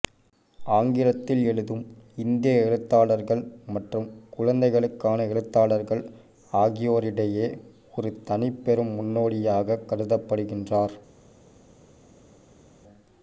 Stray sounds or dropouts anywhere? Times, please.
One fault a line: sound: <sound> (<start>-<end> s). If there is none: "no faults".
no faults